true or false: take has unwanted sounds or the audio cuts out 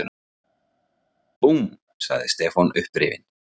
false